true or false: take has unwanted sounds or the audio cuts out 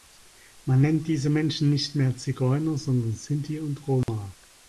true